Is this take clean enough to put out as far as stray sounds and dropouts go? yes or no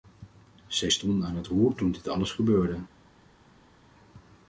yes